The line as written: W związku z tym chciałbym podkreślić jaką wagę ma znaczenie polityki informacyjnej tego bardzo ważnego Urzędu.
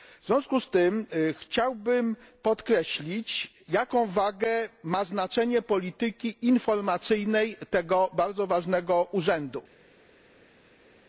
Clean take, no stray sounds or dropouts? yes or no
yes